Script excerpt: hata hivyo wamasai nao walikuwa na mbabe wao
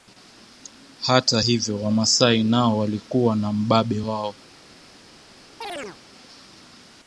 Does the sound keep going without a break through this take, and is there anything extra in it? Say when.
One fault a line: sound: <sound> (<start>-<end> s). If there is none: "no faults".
sound: chirp (5.6-6.0 s)